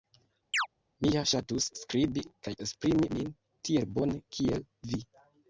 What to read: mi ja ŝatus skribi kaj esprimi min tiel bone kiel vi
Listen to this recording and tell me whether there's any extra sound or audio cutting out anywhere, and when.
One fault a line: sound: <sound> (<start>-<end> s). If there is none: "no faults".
sound: chirp (0.5-0.7 s)